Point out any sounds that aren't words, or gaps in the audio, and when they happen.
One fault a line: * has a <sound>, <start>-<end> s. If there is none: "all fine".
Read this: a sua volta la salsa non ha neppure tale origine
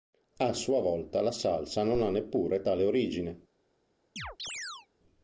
* has a chirp, 4.2-4.9 s